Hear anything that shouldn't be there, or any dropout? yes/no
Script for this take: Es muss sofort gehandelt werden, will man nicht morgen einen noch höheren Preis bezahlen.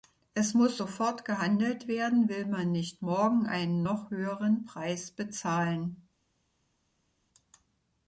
no